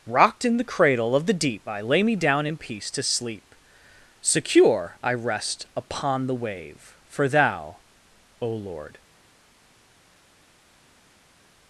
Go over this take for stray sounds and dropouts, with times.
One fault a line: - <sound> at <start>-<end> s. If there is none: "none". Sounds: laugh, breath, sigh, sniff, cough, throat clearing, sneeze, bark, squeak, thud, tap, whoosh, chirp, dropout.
none